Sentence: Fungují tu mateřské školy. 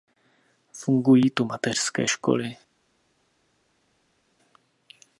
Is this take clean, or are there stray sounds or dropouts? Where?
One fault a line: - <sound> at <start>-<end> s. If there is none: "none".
none